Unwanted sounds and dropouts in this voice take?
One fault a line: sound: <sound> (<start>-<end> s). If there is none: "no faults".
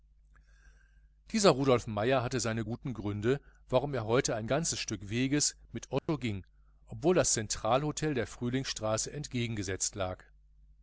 sound: dropout (6.0-6.1 s)